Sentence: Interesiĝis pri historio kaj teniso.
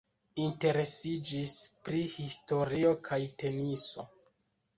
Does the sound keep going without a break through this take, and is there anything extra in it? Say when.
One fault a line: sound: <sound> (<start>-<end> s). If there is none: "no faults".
no faults